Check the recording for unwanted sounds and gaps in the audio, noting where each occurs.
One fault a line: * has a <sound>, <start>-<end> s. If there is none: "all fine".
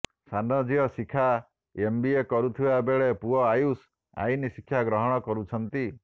all fine